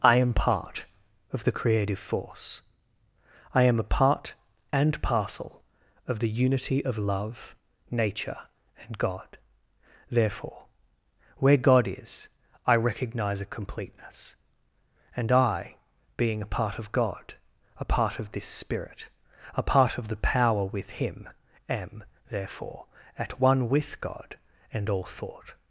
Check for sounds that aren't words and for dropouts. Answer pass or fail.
pass